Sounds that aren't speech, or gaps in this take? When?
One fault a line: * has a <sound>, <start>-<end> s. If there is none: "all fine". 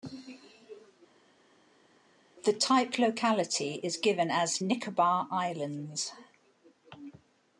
all fine